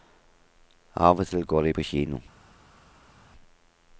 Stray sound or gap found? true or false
false